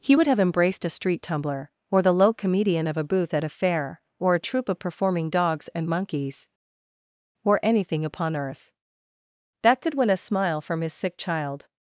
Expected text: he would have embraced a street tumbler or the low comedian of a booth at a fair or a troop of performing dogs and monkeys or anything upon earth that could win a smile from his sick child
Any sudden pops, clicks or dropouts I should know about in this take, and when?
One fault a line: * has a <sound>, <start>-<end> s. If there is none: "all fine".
all fine